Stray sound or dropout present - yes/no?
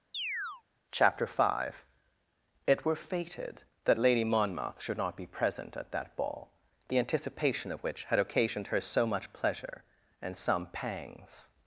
yes